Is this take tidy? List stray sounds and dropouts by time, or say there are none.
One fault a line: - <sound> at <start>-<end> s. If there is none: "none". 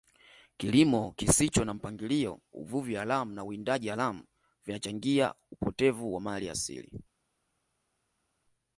none